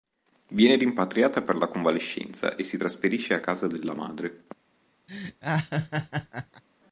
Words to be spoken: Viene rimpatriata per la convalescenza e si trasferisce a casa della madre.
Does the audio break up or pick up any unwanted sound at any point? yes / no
yes